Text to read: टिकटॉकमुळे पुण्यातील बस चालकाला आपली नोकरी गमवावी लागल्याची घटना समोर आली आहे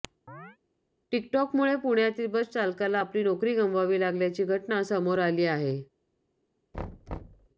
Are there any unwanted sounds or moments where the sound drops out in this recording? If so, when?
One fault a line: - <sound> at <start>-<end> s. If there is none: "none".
- chirp at 0.3-0.6 s
- thud at 6.7-7.5 s